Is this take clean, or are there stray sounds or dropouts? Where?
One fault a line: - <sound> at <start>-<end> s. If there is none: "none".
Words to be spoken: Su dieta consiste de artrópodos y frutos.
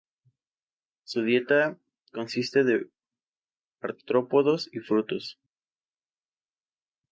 none